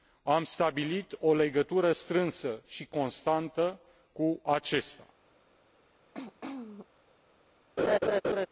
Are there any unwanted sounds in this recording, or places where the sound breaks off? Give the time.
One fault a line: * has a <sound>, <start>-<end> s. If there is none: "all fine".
* has a throat clearing, 6.1-6.9 s
* has a laugh, 7.8-8.5 s